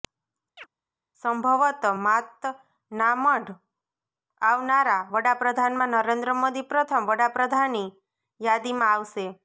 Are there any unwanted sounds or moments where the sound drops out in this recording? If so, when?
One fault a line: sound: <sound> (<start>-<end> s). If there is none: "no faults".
sound: chirp (0.6-0.7 s)